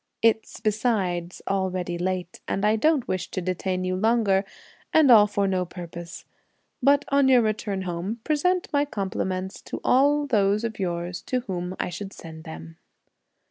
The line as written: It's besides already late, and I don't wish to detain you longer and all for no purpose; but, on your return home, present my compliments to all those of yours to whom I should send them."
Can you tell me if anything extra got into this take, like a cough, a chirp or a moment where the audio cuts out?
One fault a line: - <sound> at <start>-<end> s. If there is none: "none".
none